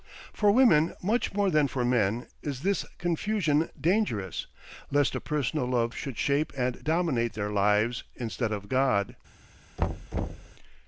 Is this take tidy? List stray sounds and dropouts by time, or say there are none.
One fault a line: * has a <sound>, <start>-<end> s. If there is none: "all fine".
* has a thud, 9.8-10.5 s